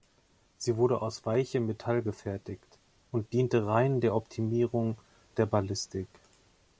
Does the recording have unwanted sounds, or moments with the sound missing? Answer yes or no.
no